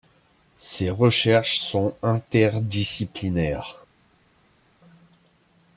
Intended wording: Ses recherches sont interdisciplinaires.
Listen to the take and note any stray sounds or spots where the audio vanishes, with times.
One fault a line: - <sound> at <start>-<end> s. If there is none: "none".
none